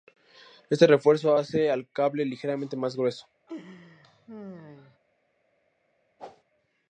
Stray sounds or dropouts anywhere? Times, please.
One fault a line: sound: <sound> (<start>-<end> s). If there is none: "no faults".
sound: laugh (3.5-5.0 s)
sound: whoosh (6.2-6.4 s)